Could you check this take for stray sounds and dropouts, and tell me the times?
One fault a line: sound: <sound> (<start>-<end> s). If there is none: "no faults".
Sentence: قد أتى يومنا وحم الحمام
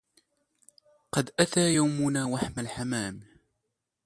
no faults